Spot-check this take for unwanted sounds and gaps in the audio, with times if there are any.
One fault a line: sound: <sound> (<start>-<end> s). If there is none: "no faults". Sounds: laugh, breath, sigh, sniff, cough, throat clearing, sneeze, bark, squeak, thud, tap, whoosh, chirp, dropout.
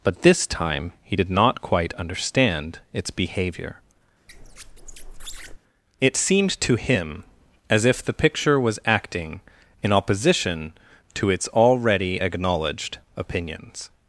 sound: squeak (4.3-5.6 s)